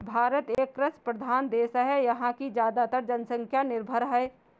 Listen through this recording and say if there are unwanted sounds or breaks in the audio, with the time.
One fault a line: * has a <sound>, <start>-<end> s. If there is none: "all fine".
* has a dropout, 0.5-0.6 s